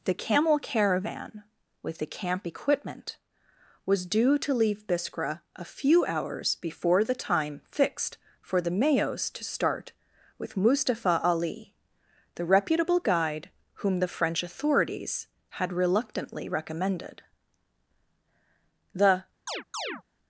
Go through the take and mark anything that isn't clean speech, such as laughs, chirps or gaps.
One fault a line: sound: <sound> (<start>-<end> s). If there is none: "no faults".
sound: chirp (19.5-20.0 s)